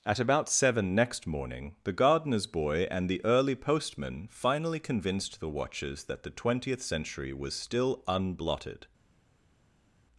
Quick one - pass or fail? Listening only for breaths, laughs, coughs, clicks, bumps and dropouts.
pass